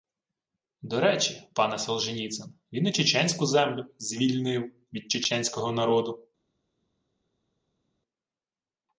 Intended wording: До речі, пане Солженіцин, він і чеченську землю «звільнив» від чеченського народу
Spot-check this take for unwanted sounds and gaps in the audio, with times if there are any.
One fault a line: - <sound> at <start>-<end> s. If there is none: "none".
none